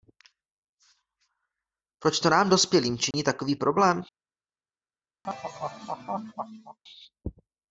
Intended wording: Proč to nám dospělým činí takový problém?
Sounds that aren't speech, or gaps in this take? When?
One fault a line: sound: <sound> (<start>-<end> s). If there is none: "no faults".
sound: dropout (3.1-3.1 s)
sound: laugh (5.2-6.8 s)